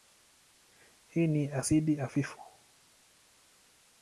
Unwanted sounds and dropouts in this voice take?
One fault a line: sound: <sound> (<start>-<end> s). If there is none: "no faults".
no faults